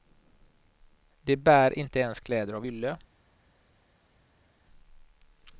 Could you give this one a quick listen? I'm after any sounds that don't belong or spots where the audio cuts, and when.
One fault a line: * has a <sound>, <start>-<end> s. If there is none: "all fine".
all fine